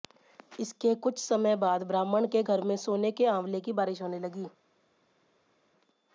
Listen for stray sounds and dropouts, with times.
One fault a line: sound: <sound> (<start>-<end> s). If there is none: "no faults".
no faults